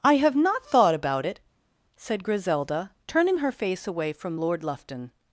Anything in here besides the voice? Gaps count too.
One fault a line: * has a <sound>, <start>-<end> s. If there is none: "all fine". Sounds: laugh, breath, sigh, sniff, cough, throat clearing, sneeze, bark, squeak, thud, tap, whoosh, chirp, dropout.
all fine